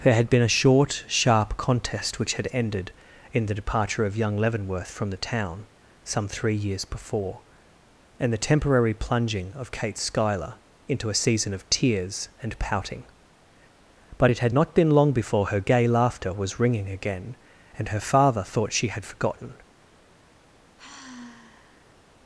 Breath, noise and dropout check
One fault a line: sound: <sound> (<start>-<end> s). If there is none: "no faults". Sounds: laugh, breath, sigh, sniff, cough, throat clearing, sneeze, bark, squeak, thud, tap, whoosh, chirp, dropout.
sound: sigh (20.8-22.0 s)